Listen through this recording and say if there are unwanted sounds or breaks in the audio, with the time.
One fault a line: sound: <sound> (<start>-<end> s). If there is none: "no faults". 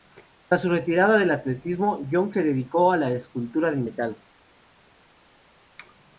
no faults